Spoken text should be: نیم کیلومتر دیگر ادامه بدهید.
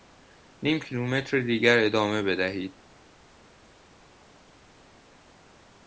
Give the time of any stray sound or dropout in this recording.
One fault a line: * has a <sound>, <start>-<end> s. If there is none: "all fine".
all fine